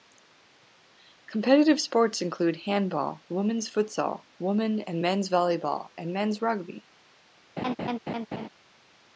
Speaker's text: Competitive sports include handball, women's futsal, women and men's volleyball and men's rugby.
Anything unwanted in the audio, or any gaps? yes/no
yes